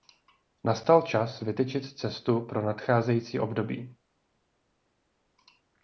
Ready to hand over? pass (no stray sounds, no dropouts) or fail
pass